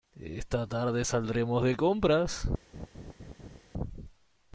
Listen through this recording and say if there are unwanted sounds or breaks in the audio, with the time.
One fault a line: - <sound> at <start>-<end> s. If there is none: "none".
- laugh at 2.7-3.6 s